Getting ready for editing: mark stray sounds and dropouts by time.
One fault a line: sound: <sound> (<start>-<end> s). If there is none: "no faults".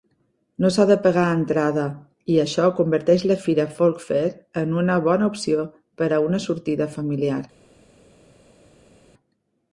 no faults